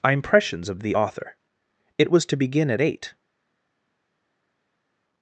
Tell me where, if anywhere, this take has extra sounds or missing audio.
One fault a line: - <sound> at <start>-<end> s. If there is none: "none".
none